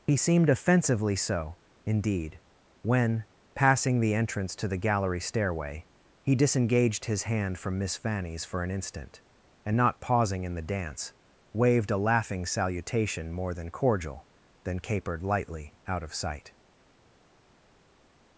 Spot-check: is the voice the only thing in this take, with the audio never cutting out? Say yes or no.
yes